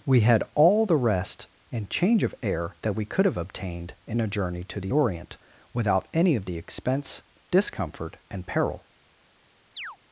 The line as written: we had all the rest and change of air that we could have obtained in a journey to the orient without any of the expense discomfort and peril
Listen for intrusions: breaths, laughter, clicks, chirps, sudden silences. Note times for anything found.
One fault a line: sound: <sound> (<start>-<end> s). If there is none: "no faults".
sound: chirp (9.8-10.0 s)